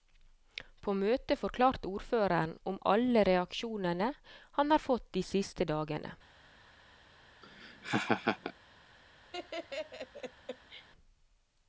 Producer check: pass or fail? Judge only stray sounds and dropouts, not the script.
fail